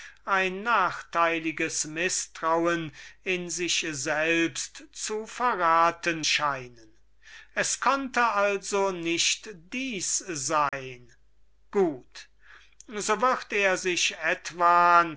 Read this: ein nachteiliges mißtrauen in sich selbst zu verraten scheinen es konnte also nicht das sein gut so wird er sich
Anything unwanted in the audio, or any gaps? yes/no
yes